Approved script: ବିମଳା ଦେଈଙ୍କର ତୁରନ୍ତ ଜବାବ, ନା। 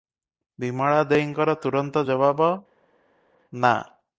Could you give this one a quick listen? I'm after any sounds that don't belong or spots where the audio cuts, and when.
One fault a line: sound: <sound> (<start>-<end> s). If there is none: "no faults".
no faults